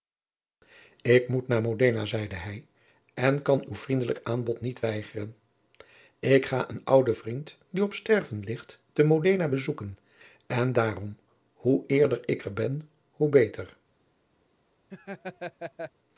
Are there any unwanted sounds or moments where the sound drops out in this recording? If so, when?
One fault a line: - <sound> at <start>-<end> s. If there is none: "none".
- laugh at 14.9-15.9 s